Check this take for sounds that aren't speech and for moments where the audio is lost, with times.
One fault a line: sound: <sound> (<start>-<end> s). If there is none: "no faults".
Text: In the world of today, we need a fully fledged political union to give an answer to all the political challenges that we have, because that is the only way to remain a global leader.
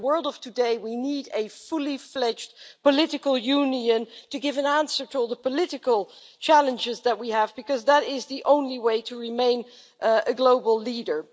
no faults